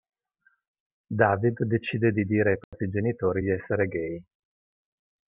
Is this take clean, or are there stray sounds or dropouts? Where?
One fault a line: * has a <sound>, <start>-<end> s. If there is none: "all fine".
* has a dropout, 2.6-2.7 s